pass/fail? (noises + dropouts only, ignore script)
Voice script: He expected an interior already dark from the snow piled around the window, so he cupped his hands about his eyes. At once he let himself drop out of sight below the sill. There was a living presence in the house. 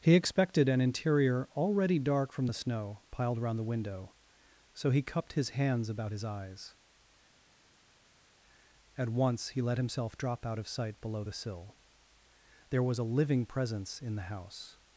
pass